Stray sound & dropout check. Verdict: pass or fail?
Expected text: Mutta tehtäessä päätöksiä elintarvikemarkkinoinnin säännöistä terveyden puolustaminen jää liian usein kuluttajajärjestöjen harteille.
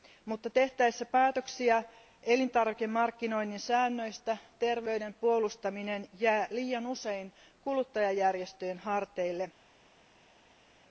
pass